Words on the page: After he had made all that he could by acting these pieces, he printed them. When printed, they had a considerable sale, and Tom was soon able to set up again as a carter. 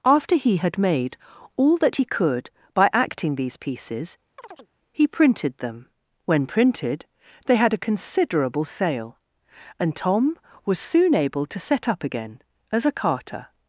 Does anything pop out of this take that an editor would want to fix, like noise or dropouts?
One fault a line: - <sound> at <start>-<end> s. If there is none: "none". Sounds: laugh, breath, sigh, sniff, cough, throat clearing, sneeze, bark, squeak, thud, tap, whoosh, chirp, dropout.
- chirp at 4.4-4.7 s